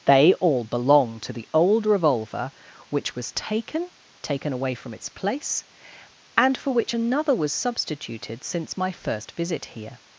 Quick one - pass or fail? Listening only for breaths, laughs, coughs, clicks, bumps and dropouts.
pass